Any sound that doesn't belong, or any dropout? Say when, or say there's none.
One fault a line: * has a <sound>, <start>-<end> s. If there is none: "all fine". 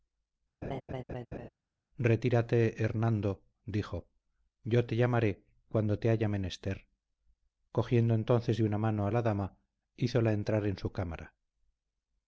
* has a laugh, 0.6-1.5 s